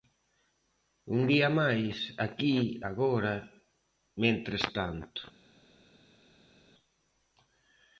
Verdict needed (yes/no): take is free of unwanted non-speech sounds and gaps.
yes